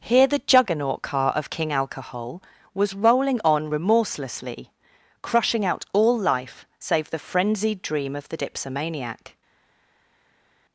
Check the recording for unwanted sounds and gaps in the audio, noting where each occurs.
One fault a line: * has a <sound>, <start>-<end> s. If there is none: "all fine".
all fine